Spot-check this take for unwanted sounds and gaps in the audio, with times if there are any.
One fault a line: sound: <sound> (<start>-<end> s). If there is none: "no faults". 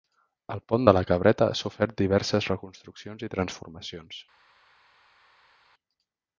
no faults